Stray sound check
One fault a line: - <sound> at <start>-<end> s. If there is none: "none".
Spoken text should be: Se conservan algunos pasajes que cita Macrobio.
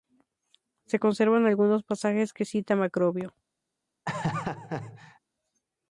- laugh at 4.1-5.2 s